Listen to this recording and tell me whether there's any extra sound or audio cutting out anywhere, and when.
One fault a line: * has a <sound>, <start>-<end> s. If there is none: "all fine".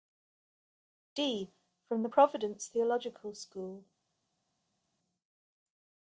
all fine